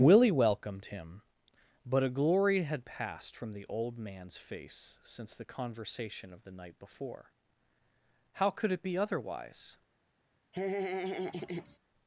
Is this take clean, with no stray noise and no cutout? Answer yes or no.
no